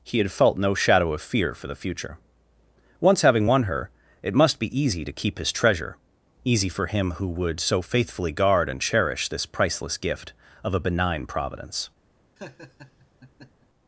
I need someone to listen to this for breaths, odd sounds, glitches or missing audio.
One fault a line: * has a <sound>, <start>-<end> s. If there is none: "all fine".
* has a laugh, 12.4-13.7 s